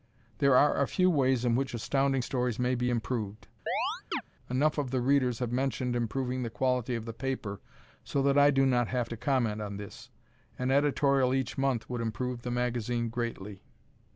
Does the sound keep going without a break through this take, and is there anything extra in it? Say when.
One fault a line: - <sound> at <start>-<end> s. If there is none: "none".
- chirp at 3.7-4.2 s